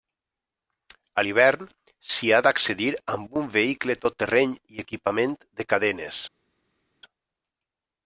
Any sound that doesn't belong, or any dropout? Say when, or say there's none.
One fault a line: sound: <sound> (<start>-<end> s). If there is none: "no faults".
no faults